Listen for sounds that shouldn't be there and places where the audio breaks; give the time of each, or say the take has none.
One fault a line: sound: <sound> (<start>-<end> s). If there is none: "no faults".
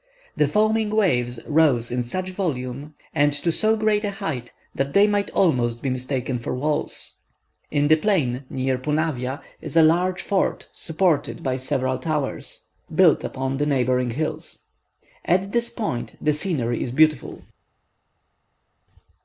no faults